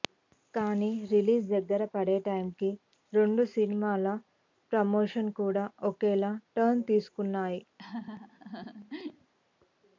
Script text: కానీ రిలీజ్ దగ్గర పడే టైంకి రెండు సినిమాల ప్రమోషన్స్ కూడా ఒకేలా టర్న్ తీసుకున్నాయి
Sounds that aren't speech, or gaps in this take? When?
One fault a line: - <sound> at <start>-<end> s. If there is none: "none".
- laugh at 7.8-9.3 s